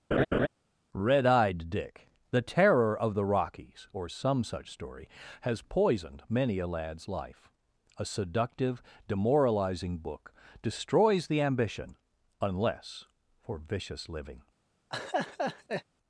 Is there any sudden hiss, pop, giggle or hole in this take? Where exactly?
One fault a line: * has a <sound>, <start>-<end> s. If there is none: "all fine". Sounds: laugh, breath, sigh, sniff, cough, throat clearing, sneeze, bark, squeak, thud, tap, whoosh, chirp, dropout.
* has a laugh, 0.1-0.5 s
* has a laugh, 14.9-15.8 s